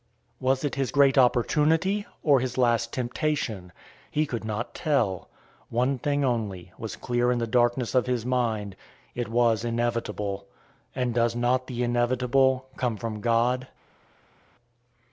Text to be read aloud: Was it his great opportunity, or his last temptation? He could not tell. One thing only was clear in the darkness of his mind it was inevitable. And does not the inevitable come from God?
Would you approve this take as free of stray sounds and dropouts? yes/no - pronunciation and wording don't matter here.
yes